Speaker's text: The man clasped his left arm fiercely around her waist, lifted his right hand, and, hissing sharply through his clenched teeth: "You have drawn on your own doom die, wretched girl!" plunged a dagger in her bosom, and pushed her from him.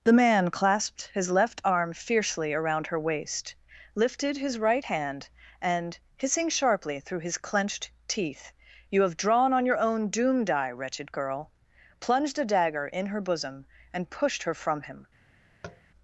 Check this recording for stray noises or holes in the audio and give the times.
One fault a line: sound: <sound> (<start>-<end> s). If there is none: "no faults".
sound: tap (15.6-15.8 s)